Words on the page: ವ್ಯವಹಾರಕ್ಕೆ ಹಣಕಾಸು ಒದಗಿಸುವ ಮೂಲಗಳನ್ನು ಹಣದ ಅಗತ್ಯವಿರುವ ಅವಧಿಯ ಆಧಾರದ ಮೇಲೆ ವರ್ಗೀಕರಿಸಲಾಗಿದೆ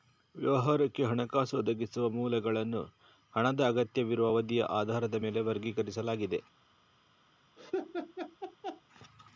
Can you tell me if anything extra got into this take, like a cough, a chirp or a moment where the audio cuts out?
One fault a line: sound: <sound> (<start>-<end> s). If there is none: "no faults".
sound: laugh (7.6-8.8 s)